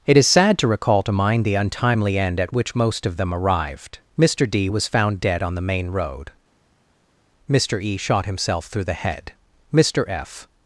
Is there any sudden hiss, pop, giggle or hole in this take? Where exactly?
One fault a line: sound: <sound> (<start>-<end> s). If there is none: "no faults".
no faults